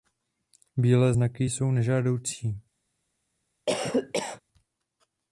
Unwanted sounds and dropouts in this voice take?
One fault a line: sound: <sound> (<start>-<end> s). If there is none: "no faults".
sound: cough (3.7-4.4 s)